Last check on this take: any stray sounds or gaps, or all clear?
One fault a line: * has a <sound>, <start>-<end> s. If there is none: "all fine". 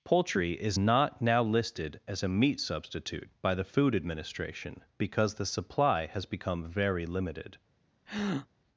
* has a breath, 8.1-8.5 s